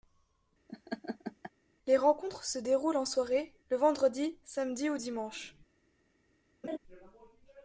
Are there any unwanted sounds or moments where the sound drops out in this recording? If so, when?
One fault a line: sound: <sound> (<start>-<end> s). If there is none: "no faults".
sound: laugh (0.7-1.5 s)
sound: laugh (6.6-6.8 s)